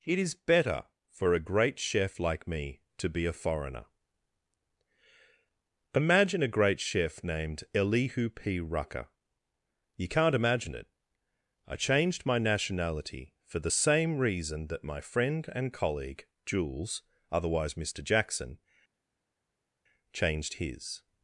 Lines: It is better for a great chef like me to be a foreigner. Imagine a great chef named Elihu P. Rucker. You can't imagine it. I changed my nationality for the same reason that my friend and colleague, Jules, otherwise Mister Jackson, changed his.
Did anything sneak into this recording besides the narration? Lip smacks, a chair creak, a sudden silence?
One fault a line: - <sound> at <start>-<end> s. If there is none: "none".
none